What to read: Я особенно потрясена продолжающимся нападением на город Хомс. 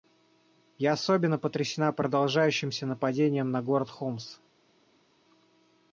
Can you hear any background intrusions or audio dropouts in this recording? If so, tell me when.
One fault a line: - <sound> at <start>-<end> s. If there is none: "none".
none